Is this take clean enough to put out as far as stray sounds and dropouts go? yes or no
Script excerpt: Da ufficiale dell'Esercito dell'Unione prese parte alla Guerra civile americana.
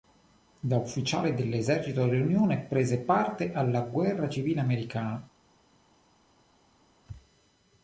yes